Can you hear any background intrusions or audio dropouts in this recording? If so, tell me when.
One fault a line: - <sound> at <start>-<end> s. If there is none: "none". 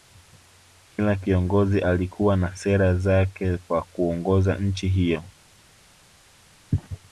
none